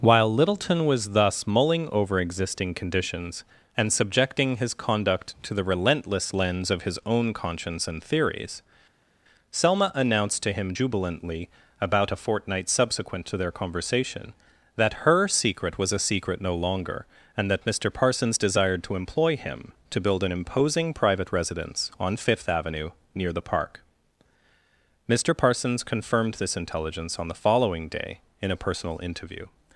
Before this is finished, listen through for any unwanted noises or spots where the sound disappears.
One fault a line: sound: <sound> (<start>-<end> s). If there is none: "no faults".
no faults